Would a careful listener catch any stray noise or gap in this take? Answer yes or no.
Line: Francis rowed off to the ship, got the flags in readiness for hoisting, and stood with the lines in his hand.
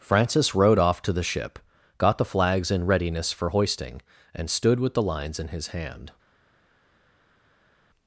no